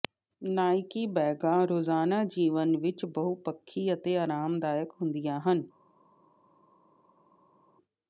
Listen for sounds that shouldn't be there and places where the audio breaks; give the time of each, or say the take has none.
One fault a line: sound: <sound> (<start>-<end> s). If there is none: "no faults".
no faults